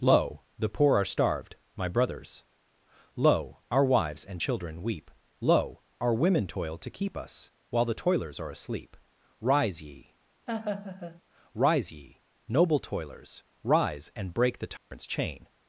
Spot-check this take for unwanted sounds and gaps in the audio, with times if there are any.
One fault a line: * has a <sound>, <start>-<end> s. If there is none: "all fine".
* has a laugh, 10.5-11.2 s
* has a dropout, 14.8-14.9 s